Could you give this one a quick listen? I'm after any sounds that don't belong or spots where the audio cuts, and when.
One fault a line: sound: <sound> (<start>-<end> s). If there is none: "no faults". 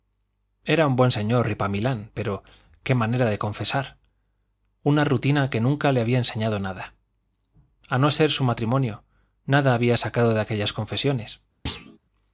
sound: thud (11.7-12.0 s)